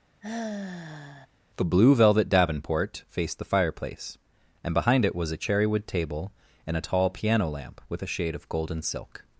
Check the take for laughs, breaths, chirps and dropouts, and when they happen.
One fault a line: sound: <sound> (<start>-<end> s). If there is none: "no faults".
sound: sigh (0.2-1.3 s)